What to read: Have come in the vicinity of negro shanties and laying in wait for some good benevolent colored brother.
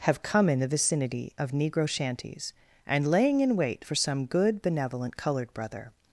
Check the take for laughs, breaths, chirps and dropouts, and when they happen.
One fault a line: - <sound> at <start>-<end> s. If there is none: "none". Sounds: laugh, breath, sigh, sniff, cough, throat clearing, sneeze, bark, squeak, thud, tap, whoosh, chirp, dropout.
none